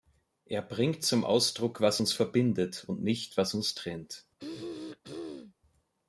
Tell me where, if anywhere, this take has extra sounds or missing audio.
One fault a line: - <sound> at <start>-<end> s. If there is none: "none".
- throat clearing at 4.4-5.5 s